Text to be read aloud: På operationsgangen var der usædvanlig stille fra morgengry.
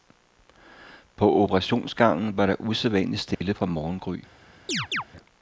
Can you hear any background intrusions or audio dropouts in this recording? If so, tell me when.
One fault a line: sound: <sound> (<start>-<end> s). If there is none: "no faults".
sound: dropout (3.3-3.4 s)
sound: chirp (4.7-5.0 s)